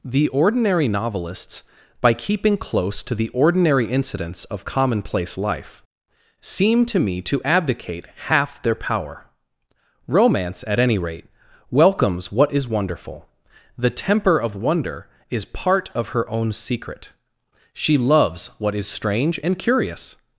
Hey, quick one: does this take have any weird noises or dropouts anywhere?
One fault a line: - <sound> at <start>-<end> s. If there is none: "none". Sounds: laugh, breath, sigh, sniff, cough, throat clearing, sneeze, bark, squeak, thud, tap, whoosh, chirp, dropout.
none